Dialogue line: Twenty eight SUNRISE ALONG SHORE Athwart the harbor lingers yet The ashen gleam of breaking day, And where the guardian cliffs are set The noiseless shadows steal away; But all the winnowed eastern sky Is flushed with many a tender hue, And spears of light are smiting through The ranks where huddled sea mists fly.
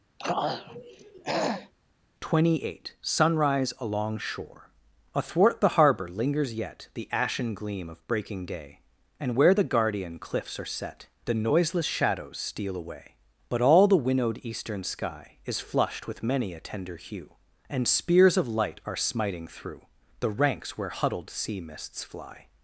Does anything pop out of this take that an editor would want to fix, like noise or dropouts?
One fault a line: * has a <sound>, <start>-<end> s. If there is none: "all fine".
* has a throat clearing, 0.2-1.7 s